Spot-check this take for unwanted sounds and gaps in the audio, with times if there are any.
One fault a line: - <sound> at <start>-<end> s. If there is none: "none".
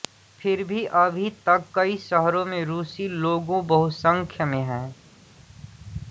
none